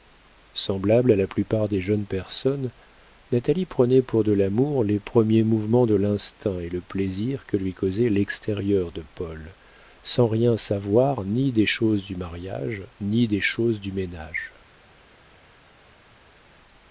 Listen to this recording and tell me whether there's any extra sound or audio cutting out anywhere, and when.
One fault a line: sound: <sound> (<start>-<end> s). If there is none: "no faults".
no faults